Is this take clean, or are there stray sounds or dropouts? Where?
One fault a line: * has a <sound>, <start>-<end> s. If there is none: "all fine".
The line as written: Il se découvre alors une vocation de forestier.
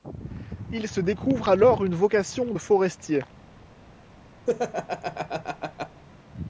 * has a laugh, 4.5-6.0 s